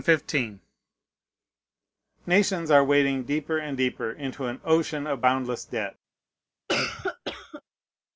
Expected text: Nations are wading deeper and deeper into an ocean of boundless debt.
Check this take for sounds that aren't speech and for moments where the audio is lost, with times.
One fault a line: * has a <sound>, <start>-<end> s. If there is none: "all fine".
* has a cough, 6.7-7.6 s